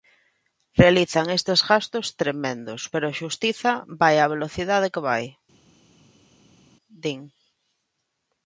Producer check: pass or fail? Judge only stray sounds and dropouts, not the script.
pass